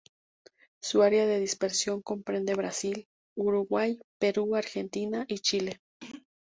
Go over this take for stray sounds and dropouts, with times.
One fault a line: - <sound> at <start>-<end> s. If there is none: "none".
- throat clearing at 6.0-6.3 s